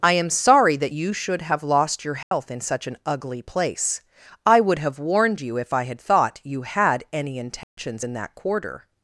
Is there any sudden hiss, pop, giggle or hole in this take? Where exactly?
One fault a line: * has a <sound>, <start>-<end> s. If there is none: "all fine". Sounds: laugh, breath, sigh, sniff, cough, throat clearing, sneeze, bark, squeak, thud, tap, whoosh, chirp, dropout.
* has a dropout, 2.2-2.3 s
* has a dropout, 7.6-7.8 s